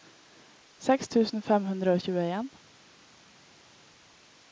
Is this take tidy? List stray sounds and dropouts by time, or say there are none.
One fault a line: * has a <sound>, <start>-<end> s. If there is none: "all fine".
all fine